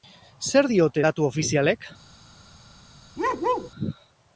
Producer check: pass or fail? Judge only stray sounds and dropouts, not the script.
fail